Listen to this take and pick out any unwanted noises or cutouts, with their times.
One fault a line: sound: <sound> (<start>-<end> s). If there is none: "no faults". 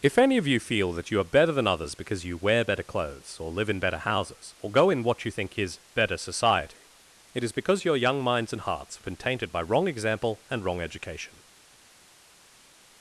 no faults